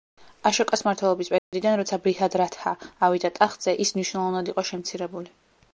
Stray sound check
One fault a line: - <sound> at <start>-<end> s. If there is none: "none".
- dropout at 1.4-1.5 s